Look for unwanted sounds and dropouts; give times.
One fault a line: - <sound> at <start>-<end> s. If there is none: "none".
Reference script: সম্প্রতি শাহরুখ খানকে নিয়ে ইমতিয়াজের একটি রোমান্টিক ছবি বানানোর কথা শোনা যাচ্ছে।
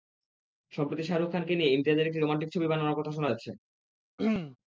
- throat clearing at 4.2-4.6 s